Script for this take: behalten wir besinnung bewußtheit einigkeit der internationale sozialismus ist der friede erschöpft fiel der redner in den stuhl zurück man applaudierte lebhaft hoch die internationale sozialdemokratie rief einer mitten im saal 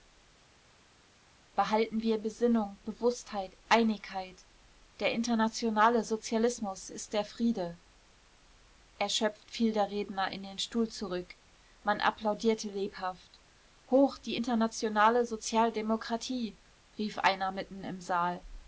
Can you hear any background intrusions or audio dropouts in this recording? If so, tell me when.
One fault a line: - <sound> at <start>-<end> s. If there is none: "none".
none